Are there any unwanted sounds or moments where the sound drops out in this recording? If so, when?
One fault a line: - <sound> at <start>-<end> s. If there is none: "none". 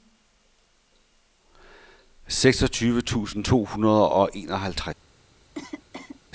- cough at 5.6-6.2 s